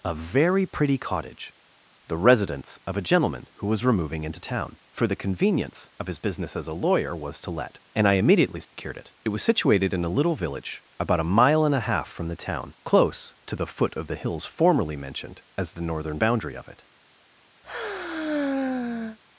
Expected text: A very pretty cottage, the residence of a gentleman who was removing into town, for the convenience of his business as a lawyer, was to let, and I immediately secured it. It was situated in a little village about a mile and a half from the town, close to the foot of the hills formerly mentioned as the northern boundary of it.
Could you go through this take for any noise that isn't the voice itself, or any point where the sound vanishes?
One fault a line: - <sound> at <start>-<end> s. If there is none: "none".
- dropout at 8.6-8.7 s
- sigh at 17.6-19.2 s